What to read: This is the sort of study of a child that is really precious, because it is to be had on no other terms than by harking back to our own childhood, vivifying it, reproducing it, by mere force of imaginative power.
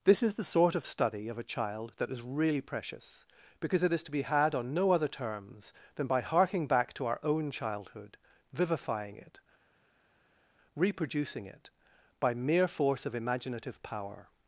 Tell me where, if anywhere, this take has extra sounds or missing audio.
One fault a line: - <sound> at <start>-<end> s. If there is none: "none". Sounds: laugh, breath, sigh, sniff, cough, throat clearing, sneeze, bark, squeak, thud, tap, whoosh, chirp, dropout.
none